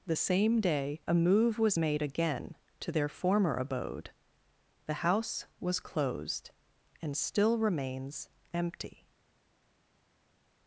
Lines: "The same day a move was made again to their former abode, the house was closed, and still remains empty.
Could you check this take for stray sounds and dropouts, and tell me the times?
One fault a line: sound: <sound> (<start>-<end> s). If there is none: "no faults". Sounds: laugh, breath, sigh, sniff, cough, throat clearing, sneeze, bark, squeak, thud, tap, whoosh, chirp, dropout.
no faults